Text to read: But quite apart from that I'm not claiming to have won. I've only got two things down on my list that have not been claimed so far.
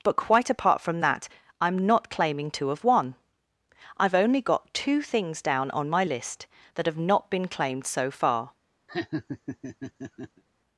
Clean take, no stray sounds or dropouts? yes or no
no